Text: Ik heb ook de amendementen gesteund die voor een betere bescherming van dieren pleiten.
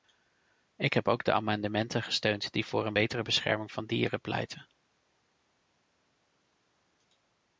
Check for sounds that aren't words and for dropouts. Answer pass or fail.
pass